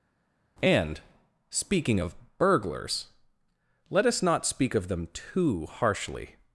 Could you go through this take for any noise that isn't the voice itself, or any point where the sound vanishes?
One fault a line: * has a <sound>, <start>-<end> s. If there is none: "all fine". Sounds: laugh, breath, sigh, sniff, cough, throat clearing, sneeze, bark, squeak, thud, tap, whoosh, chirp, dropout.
all fine